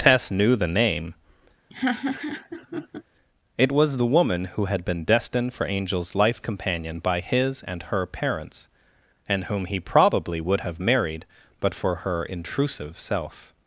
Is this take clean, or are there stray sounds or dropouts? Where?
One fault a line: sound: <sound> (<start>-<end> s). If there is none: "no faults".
sound: laugh (1.7-3.0 s)